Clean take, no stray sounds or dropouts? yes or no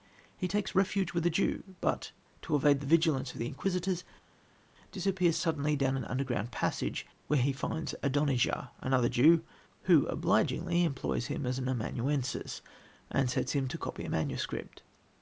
yes